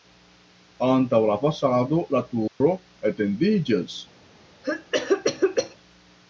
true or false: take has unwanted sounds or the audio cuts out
true